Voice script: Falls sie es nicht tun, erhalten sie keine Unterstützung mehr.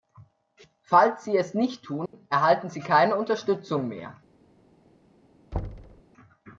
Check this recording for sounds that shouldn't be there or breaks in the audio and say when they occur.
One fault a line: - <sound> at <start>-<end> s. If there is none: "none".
- dropout at 2.1-2.1 s
- thud at 5.5-6.0 s